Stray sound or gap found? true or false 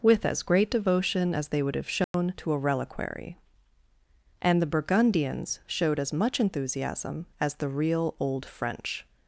true